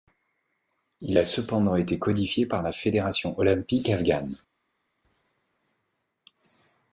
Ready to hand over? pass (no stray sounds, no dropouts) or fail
pass